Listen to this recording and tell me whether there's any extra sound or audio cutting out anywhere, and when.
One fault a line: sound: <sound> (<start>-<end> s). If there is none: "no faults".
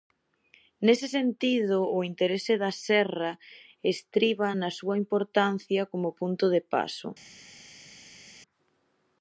no faults